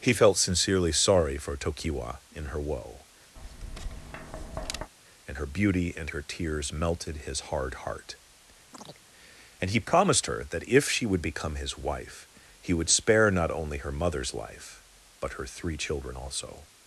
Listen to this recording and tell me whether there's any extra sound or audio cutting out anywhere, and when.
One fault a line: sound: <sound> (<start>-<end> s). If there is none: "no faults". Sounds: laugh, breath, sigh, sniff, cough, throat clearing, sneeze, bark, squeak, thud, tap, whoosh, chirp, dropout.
sound: tap (3.4-4.9 s)
sound: chirp (8.7-9.0 s)